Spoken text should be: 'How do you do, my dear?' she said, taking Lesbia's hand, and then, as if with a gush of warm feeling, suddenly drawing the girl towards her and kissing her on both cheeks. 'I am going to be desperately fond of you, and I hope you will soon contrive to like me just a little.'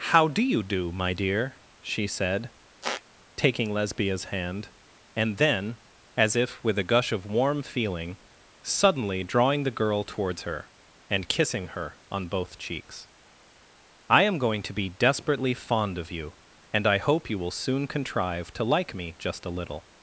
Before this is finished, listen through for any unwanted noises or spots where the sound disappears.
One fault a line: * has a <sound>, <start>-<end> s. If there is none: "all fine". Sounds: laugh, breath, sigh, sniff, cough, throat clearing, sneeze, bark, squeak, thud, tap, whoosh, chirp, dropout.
* has a squeak, 2.8-3.0 s